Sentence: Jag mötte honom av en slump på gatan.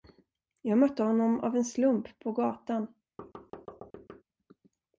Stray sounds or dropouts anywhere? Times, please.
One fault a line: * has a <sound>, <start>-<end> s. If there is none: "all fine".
* has a thud, 3.2-4.2 s